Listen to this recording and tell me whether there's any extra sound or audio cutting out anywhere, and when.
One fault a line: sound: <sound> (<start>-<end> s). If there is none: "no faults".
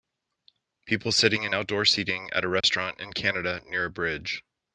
sound: dropout (2.6-2.6 s)